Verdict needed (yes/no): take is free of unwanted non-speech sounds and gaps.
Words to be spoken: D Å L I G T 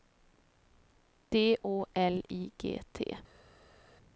yes